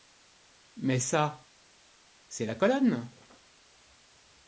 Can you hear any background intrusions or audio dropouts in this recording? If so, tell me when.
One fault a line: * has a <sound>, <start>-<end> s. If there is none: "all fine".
all fine